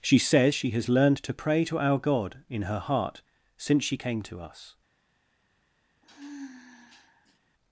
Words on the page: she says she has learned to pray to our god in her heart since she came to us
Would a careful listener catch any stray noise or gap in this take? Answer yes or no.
yes